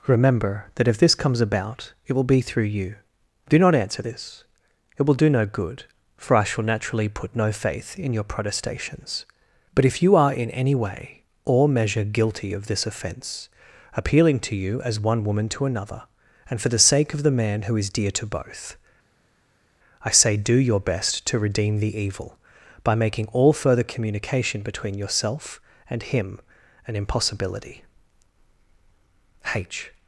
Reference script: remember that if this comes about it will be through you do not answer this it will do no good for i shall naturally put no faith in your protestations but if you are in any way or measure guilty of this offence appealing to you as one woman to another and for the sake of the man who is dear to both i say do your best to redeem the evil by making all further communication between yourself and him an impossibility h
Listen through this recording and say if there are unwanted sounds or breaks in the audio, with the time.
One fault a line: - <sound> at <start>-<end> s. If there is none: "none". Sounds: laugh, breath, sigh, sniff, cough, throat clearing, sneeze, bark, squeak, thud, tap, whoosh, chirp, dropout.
none